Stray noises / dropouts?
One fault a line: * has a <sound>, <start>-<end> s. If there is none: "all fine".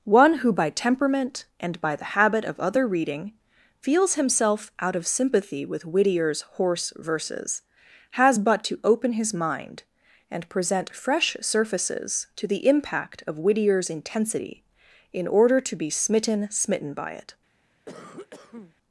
* has a cough, 17.9-18.7 s